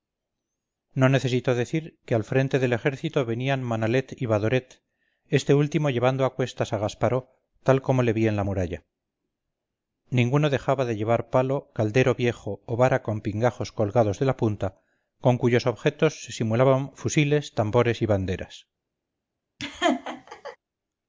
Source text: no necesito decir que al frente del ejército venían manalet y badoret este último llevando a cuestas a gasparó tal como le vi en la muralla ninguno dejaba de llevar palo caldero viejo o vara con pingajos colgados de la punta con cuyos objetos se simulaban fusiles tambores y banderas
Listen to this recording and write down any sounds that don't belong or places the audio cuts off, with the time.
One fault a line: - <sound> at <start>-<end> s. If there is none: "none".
- laugh at 19.6-20.6 s